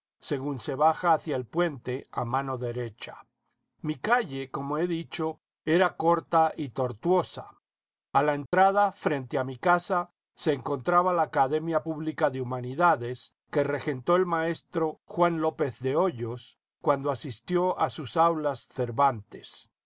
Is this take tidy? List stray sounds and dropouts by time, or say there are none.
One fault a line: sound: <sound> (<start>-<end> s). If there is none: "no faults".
sound: dropout (8.5-8.5 s)